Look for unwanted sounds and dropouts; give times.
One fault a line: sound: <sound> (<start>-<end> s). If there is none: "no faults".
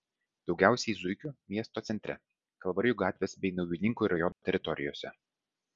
sound: dropout (4.3-4.4 s)